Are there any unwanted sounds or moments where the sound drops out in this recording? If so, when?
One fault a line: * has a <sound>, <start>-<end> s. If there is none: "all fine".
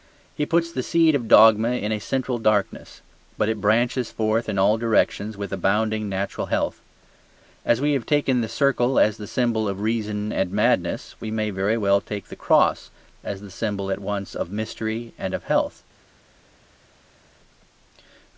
all fine